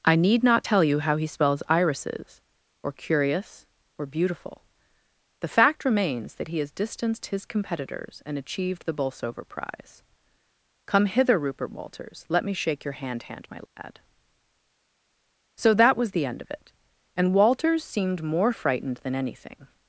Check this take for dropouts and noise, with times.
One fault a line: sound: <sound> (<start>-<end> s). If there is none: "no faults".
sound: dropout (13.7-13.8 s)